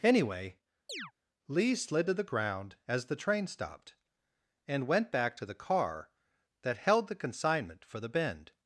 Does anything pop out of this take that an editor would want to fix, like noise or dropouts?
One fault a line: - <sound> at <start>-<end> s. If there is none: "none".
- chirp at 0.9-1.1 s